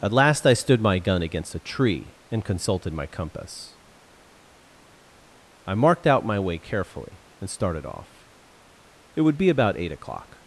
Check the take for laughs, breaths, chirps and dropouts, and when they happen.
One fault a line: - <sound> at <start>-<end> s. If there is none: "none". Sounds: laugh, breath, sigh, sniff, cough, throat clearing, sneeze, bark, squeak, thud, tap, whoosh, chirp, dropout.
none